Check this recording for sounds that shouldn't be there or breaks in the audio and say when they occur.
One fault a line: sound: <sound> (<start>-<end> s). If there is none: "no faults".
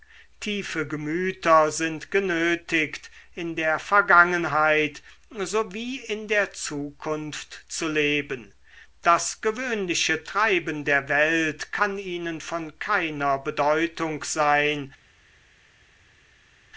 no faults